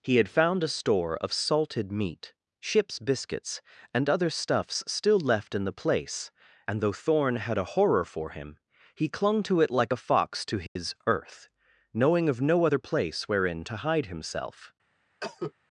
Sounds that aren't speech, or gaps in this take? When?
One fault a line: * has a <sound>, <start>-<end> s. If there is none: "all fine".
* has a dropout, 10.7-10.8 s
* has a cough, 15.2-15.5 s